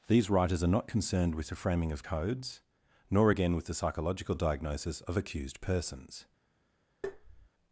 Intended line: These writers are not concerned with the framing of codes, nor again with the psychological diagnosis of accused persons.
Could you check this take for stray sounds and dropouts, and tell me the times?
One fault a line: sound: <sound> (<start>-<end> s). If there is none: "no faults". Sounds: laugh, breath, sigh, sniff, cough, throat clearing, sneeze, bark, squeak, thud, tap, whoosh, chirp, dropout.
sound: tap (7.0-7.5 s)